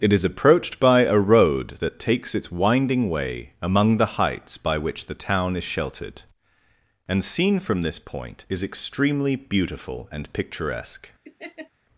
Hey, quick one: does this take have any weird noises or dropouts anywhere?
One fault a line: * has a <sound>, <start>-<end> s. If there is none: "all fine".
* has a laugh, 11.2-11.7 s